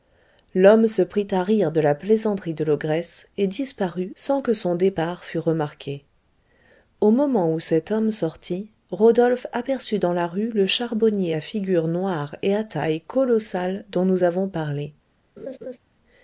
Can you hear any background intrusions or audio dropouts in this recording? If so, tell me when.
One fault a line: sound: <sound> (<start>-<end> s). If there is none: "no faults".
sound: laugh (15.4-15.8 s)